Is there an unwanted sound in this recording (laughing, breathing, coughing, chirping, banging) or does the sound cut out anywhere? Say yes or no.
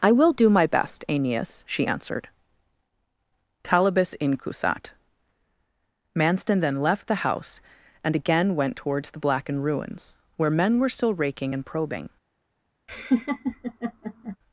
yes